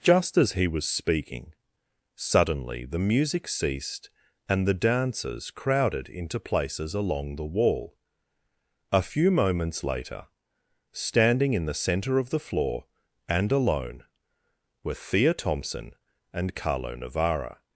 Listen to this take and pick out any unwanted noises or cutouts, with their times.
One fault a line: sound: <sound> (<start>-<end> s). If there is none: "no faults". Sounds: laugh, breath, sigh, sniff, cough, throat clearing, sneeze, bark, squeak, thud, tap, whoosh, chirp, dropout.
no faults